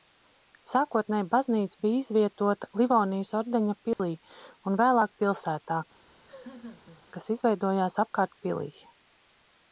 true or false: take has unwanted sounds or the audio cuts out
true